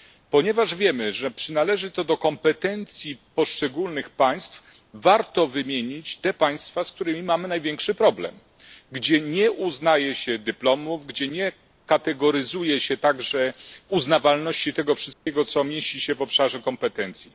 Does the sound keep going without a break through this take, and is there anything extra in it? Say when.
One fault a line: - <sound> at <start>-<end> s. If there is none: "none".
- dropout at 15.1-15.3 s